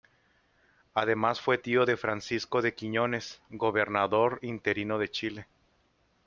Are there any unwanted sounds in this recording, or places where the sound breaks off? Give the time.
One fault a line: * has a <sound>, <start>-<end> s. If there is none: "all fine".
all fine